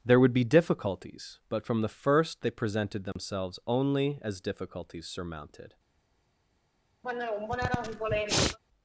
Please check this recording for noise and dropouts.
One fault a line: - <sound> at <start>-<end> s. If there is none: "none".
- dropout at 3.1-3.2 s
- sniff at 7.0-8.6 s